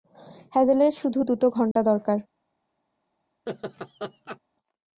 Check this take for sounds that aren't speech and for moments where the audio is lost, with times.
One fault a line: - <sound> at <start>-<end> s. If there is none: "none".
- dropout at 1.7-1.8 s
- laugh at 3.5-4.4 s